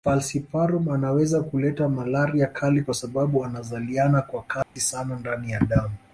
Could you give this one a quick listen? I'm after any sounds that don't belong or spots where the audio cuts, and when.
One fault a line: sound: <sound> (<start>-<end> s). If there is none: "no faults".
sound: dropout (4.6-4.8 s)